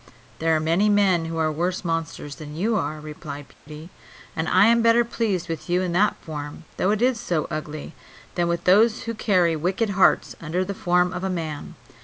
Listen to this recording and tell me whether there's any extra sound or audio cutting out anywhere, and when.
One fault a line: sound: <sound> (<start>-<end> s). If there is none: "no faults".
sound: dropout (3.5-3.7 s)